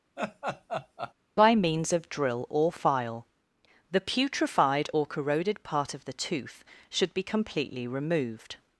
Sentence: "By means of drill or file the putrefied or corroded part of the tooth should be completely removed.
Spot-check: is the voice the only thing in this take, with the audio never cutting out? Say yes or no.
no